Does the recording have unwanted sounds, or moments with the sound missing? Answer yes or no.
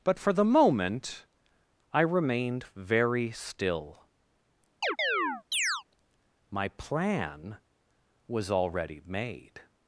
yes